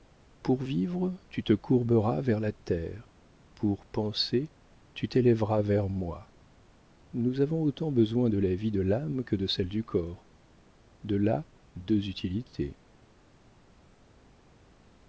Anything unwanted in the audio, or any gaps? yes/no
no